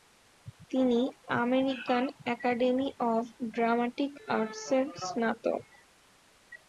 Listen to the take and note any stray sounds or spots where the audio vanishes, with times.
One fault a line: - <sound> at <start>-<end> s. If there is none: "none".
none